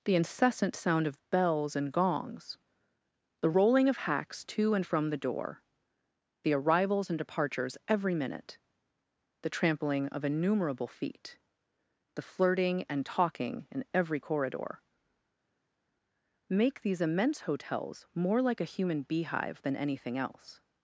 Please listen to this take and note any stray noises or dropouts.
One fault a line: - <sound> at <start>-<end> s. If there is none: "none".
none